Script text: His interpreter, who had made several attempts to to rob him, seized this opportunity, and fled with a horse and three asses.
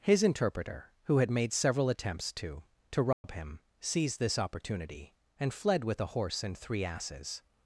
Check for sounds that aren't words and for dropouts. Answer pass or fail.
fail